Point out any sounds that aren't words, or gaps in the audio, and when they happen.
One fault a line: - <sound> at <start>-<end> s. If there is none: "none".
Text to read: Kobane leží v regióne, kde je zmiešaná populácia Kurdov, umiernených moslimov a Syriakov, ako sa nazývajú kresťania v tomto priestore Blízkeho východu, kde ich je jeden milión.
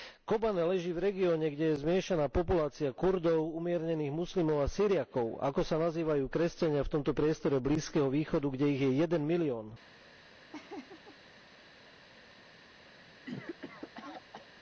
- laugh at 10.5-11.6 s
- cough at 13.0-14.5 s